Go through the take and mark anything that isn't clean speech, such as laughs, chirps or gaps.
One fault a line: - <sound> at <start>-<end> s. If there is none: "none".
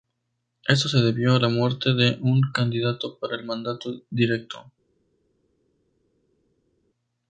none